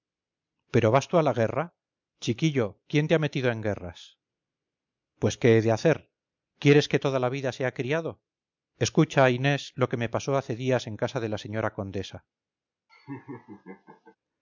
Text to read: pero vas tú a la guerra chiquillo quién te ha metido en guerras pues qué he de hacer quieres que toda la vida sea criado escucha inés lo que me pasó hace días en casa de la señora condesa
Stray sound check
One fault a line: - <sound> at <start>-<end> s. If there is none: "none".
- laugh at 12.9-14.2 s